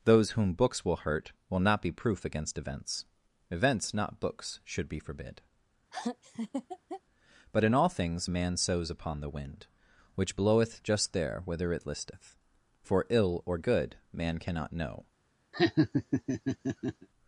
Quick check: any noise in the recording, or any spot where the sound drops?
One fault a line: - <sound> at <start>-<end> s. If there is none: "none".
- laugh at 5.9-7.0 s
- laugh at 15.5-17.1 s